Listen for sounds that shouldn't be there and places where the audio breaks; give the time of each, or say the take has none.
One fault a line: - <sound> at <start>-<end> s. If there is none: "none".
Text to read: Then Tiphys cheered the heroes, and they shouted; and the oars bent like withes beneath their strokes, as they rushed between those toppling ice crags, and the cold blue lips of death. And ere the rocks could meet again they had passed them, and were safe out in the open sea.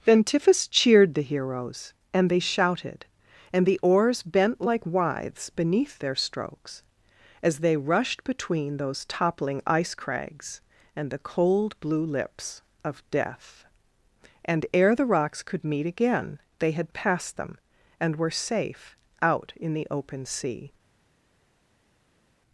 none